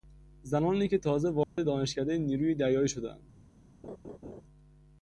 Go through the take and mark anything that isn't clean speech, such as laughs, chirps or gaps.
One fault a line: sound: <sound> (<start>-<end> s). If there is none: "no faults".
sound: dropout (1.4-1.6 s)
sound: laugh (3.8-4.4 s)